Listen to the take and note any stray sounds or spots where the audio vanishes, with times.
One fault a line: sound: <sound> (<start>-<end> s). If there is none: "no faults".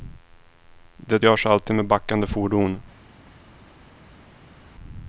no faults